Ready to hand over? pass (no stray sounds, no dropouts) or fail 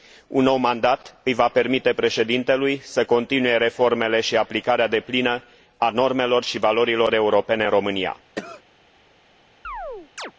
fail